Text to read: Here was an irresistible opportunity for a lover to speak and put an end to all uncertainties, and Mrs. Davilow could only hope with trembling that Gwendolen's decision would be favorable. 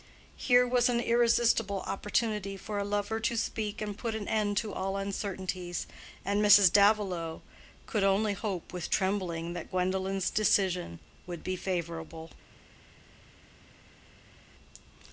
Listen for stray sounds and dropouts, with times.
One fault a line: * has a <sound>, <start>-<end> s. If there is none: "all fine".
all fine